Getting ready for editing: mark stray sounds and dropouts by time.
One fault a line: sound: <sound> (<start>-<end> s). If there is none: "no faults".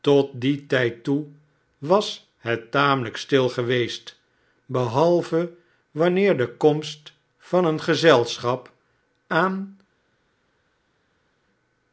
no faults